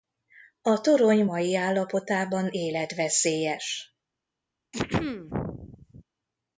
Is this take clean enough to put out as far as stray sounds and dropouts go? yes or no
no